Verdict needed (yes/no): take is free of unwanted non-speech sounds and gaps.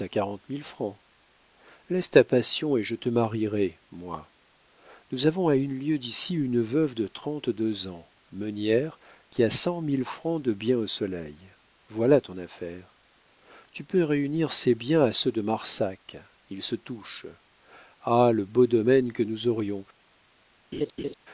no